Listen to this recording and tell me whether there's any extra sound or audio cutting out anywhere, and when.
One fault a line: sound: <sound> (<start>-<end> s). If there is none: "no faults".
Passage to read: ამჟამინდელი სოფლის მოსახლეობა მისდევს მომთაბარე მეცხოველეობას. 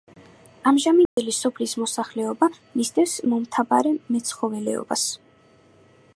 sound: dropout (1.1-1.2 s)